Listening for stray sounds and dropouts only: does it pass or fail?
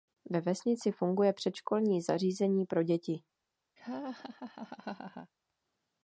fail